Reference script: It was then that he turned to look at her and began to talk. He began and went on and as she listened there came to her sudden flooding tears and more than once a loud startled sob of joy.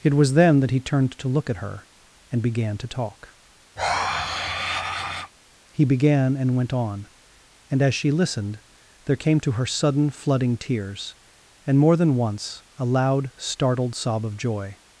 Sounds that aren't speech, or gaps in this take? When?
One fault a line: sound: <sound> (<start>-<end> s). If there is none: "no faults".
sound: sigh (3.8-5.3 s)